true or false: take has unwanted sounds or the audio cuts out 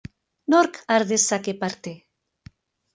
false